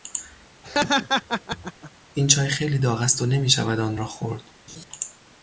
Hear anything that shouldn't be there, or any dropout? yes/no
yes